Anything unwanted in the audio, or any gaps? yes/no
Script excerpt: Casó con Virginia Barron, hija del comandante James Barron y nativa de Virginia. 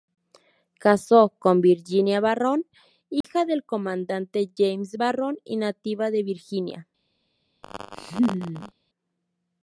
yes